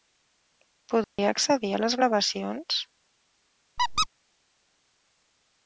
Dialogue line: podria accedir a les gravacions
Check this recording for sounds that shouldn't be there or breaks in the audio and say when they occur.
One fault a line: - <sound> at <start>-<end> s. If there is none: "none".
- dropout at 1.0-1.2 s
- squeak at 3.8-4.1 s